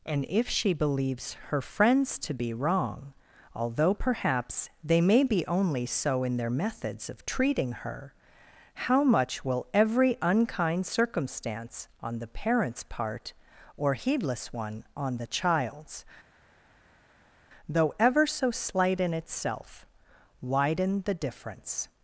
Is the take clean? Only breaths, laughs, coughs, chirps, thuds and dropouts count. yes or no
yes